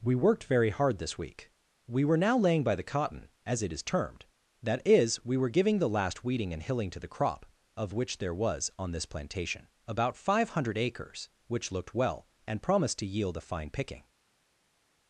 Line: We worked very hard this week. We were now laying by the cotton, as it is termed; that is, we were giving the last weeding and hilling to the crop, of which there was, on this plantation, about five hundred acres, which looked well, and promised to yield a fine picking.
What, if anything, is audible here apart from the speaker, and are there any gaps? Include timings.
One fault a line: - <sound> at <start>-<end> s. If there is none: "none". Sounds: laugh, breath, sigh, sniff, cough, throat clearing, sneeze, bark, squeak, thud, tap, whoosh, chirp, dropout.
none